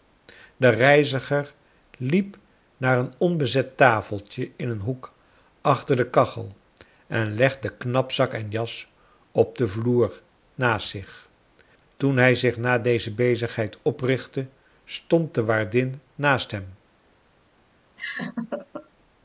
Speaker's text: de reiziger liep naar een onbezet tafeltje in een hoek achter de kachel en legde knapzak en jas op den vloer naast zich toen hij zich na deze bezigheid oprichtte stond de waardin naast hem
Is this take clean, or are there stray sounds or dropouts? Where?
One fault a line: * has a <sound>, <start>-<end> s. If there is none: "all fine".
* has a laugh, 18.0-18.9 s